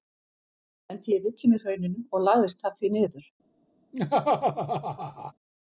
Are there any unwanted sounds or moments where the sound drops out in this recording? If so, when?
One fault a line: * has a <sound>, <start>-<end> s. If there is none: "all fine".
* has a laugh, 3.9-5.3 s